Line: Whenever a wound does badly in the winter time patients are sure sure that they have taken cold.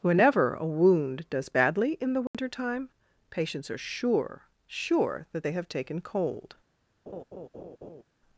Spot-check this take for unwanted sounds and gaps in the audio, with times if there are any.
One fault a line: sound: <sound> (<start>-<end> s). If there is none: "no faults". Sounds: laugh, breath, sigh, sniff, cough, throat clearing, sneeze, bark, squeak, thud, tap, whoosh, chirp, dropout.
sound: dropout (2.3-2.3 s)
sound: laugh (7.1-8.0 s)